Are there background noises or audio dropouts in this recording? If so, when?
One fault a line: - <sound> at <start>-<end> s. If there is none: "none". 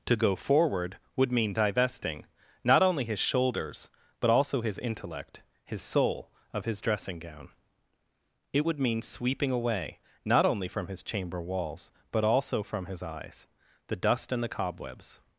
none